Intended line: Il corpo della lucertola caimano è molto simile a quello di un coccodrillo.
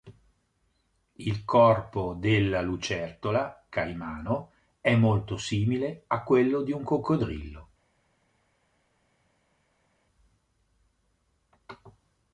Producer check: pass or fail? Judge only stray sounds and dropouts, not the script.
pass